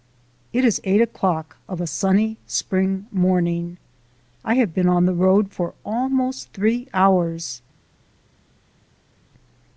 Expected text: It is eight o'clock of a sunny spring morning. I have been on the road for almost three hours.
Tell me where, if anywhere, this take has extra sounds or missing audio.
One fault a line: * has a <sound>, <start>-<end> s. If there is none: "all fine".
all fine